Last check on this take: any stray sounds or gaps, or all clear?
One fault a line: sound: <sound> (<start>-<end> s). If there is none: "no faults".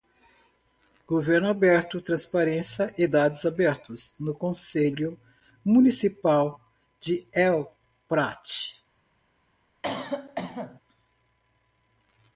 sound: cough (9.8-10.8 s)